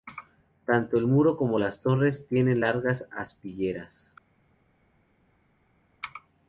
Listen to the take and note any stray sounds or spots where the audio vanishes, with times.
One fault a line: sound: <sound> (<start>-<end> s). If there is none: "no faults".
no faults